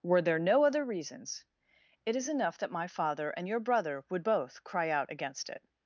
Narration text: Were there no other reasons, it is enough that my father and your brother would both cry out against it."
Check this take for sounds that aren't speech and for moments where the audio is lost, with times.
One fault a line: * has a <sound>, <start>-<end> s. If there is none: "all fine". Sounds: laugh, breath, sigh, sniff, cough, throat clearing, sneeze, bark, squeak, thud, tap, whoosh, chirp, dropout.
all fine